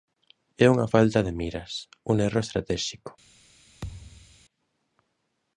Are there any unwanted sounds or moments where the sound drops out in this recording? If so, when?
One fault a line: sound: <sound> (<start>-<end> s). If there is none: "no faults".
sound: thud (3.8-4.4 s)